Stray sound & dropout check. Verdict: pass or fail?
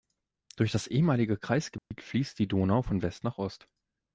fail